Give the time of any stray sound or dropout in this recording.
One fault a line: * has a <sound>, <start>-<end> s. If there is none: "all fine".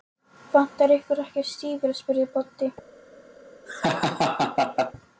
* has a laugh, 3.7-4.9 s